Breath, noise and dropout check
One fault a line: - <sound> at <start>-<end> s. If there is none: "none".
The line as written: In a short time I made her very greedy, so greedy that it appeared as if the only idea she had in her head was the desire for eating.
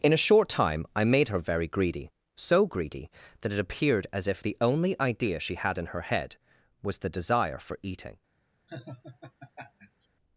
- laugh at 8.7-10.1 s